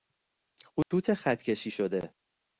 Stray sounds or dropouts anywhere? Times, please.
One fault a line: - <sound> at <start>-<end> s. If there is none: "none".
- dropout at 0.8-0.9 s